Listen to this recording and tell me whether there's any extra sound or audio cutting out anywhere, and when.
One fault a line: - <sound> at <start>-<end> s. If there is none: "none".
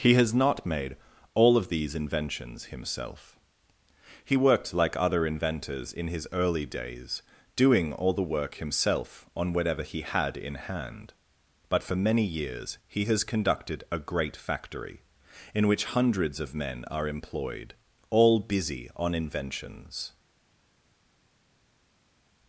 none